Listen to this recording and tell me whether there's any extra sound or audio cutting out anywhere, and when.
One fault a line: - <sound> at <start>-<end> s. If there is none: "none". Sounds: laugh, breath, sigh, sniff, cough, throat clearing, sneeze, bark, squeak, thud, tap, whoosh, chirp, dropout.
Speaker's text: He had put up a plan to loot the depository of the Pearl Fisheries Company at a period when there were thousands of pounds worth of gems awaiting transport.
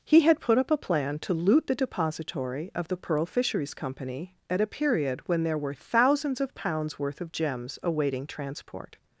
none